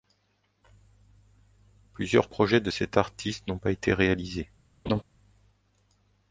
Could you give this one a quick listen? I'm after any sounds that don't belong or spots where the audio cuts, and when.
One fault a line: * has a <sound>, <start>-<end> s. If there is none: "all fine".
* has a laugh, 4.9-5.0 s